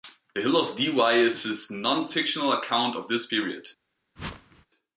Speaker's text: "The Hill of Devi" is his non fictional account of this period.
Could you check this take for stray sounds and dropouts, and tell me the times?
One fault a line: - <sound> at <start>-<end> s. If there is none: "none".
- whoosh at 4.2-4.7 s